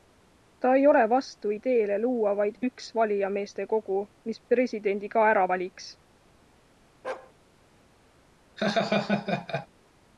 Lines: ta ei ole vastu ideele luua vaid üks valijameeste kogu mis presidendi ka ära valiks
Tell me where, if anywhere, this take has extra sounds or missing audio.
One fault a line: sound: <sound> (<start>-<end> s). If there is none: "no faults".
sound: bark (7.0-7.3 s)
sound: laugh (8.6-9.7 s)